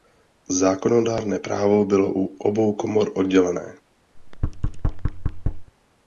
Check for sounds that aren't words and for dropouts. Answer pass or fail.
fail